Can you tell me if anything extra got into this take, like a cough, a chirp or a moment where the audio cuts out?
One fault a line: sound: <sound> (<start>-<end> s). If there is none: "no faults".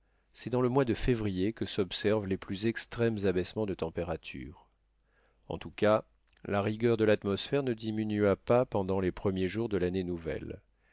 no faults